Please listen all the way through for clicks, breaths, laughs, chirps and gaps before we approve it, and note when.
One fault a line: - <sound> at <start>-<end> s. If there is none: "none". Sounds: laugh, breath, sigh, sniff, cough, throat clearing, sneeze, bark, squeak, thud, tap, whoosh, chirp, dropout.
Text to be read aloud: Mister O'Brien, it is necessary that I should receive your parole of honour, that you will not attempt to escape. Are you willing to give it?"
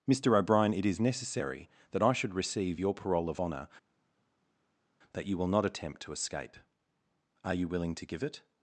none